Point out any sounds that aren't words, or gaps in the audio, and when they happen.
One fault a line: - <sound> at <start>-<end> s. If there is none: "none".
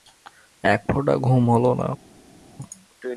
none